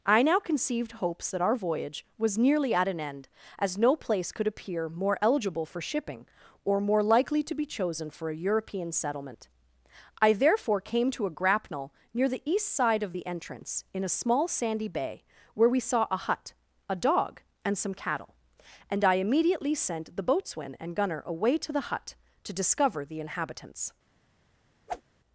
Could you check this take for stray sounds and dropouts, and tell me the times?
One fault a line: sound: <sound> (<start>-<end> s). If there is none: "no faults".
sound: whoosh (24.9-25.0 s)